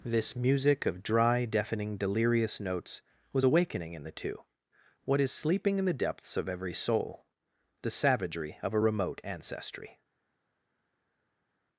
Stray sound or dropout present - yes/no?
no